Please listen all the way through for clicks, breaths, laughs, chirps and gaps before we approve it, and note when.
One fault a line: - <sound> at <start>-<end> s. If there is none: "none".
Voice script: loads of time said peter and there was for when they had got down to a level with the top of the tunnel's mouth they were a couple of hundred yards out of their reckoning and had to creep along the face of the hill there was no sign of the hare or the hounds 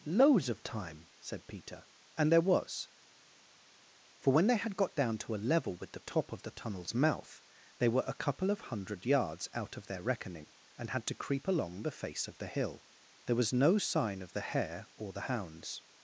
none